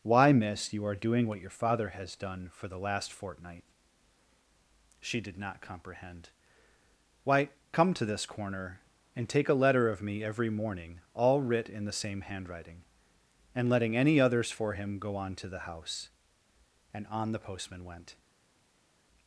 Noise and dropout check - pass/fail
pass